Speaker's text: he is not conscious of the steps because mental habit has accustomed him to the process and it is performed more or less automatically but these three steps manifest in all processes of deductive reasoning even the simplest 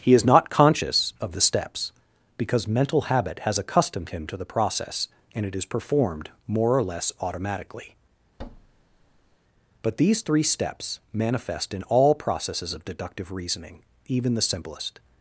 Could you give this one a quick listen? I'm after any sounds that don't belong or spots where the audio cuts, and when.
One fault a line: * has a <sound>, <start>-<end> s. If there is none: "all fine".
* has a thud, 8.4-9.4 s